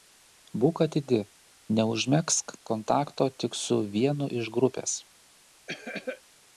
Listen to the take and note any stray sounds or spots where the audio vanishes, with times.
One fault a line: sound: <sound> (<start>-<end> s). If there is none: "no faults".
sound: cough (5.7-6.2 s)